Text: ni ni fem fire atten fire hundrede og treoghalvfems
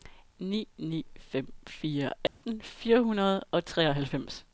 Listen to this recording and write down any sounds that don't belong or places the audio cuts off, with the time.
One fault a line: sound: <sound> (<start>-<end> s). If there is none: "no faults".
sound: dropout (2.3-2.4 s)